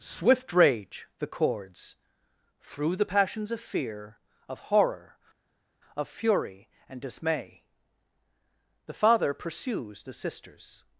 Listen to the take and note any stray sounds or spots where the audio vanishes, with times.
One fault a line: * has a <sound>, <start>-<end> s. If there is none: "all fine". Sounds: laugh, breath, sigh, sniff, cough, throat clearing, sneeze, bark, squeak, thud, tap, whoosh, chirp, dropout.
all fine